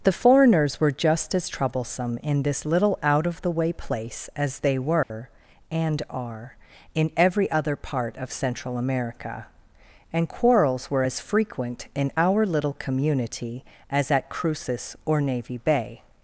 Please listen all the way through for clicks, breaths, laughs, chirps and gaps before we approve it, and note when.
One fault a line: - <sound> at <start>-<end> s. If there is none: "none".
- dropout at 5.0-5.1 s